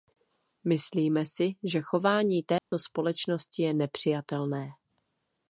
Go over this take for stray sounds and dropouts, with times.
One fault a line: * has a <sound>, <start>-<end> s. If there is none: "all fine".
* has a dropout, 2.6-2.7 s